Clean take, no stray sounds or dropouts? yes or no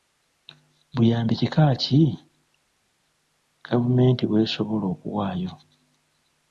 yes